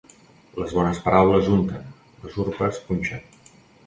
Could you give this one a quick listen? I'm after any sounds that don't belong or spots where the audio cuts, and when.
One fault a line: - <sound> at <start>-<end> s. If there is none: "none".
none